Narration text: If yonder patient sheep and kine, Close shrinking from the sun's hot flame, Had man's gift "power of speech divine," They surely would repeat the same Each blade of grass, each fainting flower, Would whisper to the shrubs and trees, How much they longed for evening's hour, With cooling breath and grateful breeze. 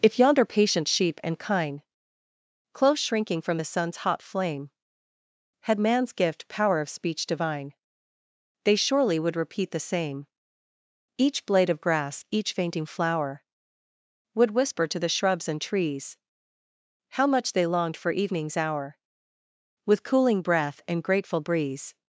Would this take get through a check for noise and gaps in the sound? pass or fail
pass